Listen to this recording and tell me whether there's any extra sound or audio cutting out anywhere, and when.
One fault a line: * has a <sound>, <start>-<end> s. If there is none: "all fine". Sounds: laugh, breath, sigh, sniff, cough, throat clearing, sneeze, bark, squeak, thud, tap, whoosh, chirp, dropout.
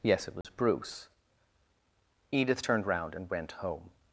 * has a dropout, 0.4-0.4 s